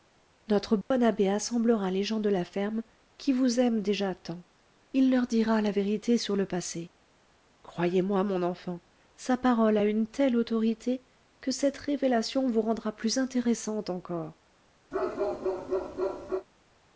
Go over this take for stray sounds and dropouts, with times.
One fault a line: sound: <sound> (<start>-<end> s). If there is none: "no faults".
sound: dropout (0.8-0.9 s)
sound: bark (14.9-16.5 s)